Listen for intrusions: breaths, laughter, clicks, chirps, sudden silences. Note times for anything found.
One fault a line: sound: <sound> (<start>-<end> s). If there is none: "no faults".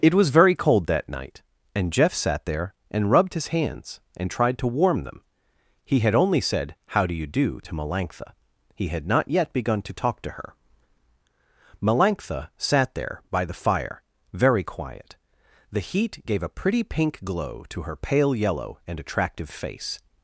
no faults